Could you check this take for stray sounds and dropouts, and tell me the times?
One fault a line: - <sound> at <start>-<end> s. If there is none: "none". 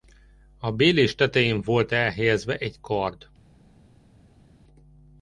none